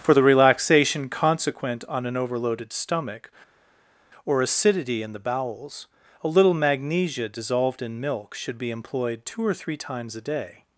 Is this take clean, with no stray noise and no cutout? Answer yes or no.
yes